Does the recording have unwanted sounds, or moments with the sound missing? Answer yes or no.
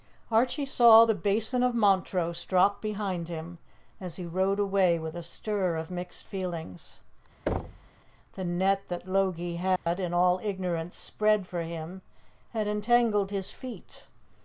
yes